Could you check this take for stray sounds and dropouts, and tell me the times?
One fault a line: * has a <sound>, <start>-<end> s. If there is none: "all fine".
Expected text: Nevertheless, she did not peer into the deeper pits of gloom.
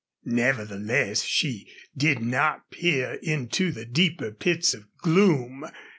all fine